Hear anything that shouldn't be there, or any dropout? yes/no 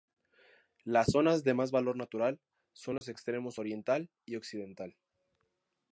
yes